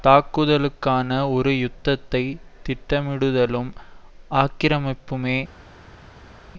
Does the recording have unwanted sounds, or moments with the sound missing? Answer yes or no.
no